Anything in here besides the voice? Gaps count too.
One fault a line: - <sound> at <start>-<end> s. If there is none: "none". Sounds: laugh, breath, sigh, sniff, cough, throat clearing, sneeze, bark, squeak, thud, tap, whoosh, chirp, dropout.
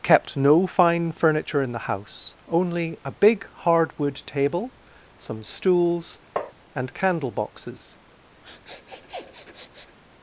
- tap at 6.4-6.5 s
- sniff at 8.4-10.0 s